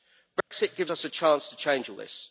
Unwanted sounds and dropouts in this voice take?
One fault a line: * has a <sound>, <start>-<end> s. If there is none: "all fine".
* has a dropout, 0.4-0.5 s